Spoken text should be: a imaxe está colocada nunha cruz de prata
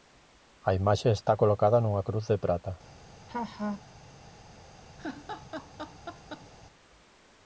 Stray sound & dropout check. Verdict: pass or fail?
fail